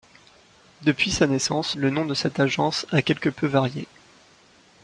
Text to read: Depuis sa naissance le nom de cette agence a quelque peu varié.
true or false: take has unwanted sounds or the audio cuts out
false